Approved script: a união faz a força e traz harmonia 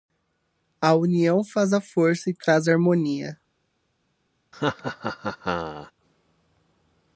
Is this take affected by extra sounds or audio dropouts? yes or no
yes